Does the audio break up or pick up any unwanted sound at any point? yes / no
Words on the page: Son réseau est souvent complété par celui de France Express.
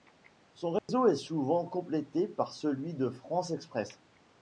yes